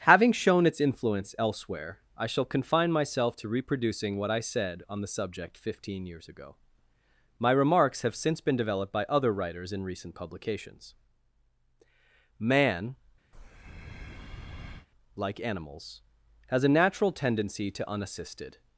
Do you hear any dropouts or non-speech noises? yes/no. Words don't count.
yes